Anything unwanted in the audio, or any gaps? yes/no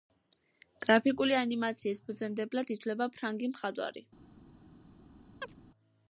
yes